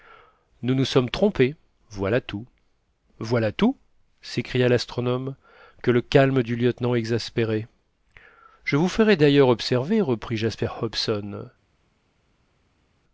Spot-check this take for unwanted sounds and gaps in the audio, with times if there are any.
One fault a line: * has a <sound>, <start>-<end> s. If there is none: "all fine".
all fine